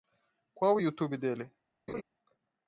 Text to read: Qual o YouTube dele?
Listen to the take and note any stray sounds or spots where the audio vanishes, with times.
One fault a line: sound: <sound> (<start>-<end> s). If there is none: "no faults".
sound: laugh (1.9-2.0 s)